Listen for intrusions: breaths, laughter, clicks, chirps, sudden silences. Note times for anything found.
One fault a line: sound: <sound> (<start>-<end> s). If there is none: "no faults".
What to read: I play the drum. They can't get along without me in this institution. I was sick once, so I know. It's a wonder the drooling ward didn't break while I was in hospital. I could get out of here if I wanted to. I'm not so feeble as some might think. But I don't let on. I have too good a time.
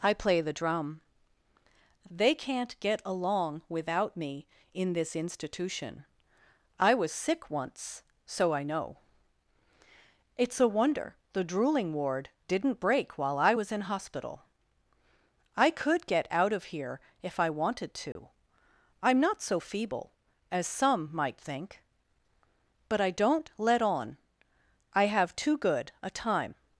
sound: dropout (18.1-18.2 s)